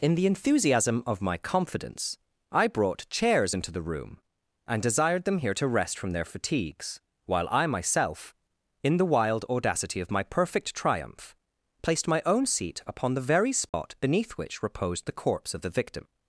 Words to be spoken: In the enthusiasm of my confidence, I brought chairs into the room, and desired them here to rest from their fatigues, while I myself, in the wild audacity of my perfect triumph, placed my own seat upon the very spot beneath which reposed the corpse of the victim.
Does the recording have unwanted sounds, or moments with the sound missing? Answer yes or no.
yes